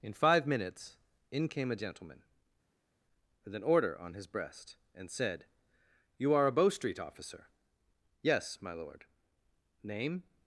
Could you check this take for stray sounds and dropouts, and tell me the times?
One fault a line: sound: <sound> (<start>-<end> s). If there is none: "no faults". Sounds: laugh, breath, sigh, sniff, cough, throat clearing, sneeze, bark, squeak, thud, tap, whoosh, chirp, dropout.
no faults